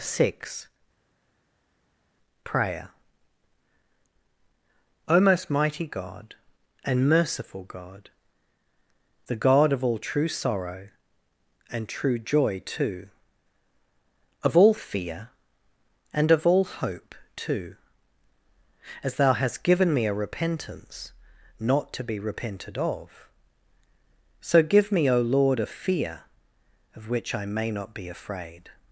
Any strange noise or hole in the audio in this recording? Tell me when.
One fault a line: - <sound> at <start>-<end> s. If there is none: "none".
none